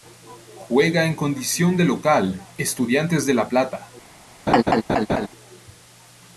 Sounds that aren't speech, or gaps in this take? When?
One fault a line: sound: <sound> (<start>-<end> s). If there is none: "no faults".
sound: laugh (4.5-5.3 s)